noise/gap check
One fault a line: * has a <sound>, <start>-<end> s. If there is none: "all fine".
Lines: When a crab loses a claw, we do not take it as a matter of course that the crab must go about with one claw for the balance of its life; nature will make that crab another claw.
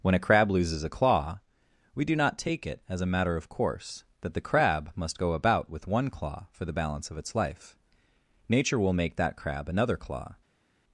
all fine